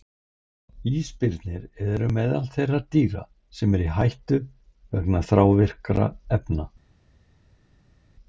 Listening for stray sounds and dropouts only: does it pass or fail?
pass